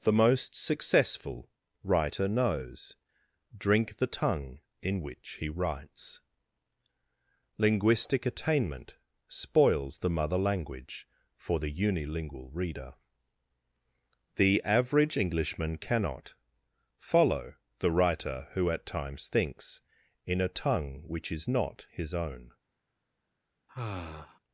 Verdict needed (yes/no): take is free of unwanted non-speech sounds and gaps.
no